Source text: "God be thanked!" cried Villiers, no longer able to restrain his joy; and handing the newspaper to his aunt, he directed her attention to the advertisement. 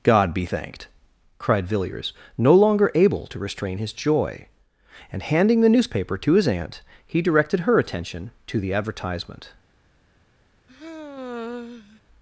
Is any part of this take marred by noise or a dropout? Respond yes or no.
yes